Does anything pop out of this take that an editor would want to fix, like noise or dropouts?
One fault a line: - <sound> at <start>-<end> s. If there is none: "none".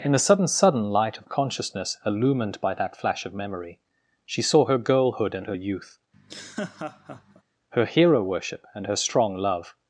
- laugh at 6.1-7.4 s